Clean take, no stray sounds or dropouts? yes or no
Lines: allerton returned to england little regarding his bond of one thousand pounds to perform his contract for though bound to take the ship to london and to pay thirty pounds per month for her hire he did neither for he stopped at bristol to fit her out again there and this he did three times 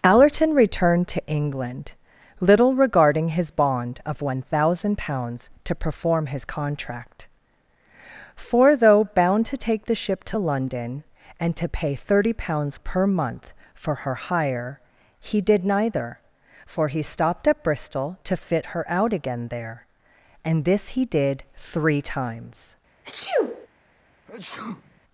no